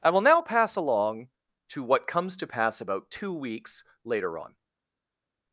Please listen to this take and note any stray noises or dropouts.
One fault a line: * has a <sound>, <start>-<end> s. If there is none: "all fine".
all fine